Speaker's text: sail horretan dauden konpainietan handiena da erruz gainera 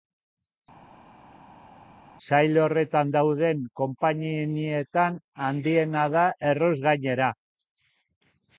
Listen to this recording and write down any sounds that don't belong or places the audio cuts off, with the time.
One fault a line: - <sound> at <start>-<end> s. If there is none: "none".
none